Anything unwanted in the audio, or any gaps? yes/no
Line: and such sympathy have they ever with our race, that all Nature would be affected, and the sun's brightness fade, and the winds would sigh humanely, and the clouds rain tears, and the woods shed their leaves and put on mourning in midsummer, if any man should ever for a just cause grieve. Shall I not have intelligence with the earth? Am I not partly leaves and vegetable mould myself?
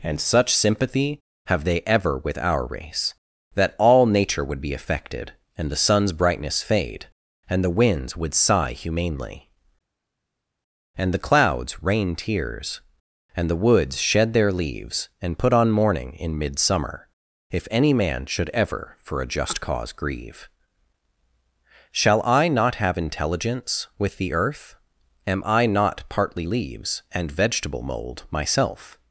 no